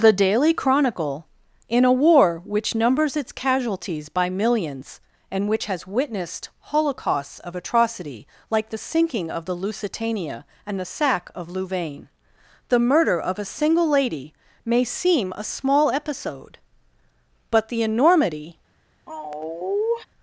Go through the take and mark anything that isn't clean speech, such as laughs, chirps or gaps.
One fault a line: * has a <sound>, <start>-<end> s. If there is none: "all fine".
* has a sigh, 19.1-20.1 s